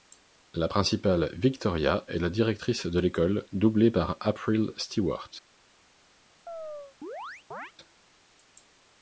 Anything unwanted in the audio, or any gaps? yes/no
yes